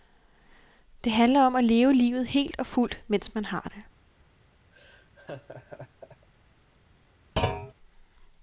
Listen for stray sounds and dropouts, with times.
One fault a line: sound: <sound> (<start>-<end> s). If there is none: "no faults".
sound: laugh (4.7-6.3 s)
sound: thud (7.4-7.7 s)